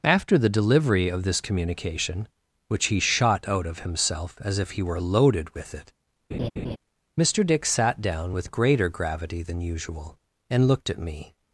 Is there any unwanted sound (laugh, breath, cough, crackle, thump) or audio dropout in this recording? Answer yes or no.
yes